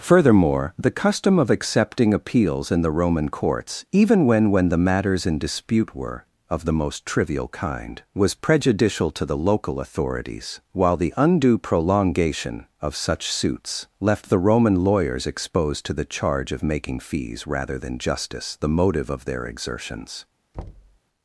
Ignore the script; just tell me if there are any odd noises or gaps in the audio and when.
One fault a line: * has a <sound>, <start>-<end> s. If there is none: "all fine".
* has a thud, 20.5-21.0 s